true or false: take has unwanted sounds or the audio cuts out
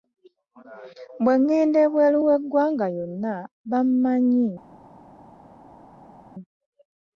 false